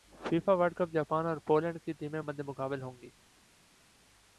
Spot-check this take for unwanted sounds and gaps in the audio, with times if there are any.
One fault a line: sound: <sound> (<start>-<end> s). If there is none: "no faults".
no faults